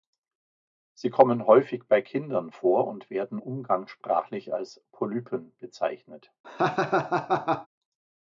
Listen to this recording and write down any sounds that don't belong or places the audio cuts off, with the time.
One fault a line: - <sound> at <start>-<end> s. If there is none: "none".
- laugh at 6.4-7.7 s